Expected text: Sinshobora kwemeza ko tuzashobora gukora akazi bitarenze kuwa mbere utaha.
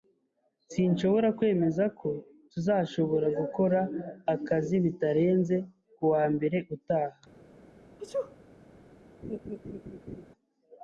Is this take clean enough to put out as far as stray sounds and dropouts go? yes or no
no